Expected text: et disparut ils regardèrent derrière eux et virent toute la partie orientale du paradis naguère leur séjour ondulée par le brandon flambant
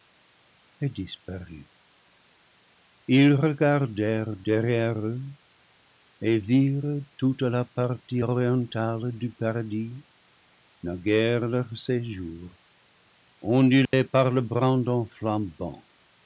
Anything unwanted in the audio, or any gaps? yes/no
yes